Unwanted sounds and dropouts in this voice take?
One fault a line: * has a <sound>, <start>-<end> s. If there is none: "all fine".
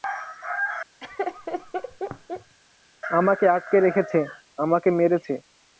* has a laugh, 1.0-2.5 s